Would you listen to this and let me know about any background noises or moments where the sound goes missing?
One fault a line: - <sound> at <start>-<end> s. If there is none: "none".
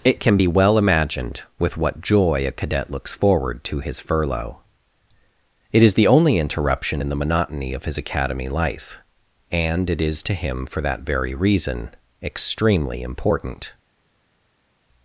none